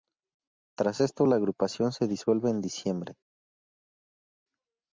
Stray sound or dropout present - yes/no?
no